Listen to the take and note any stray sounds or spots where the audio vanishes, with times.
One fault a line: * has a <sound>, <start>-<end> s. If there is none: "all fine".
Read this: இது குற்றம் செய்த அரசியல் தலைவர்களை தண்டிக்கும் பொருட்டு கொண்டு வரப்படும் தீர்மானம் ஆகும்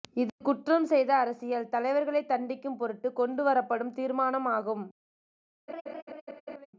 * has a laugh, 5.7-6.7 s